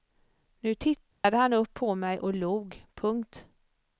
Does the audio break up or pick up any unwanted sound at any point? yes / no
yes